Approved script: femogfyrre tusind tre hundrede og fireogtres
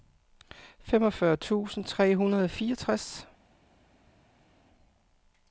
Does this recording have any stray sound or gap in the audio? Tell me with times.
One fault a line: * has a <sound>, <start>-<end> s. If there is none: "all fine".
all fine